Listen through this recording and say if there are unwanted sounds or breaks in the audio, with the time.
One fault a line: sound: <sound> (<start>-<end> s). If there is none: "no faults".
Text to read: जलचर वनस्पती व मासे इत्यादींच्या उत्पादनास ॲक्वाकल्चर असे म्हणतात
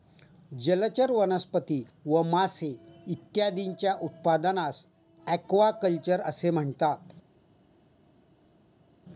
no faults